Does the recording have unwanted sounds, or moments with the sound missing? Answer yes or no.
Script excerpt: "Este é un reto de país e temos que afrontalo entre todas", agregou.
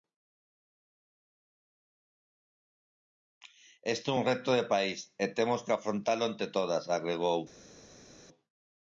no